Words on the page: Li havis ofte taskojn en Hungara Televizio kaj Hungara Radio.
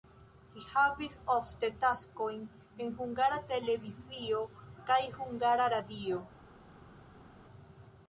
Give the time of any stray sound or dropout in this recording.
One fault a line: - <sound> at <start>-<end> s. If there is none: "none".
none